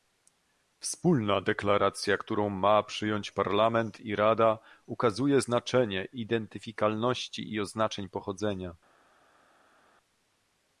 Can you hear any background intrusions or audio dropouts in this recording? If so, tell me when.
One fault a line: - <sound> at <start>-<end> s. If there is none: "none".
none